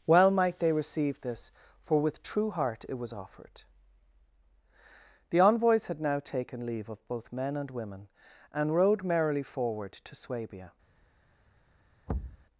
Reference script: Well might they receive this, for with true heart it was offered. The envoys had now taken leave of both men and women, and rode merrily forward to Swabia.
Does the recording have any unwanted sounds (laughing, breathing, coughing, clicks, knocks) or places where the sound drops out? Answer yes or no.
yes